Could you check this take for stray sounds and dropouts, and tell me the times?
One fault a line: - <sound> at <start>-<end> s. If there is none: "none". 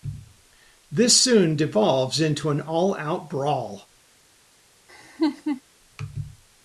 - laugh at 4.9-5.6 s